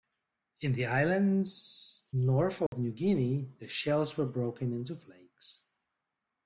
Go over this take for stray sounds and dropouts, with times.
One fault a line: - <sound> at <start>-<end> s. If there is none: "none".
- dropout at 2.7-2.7 s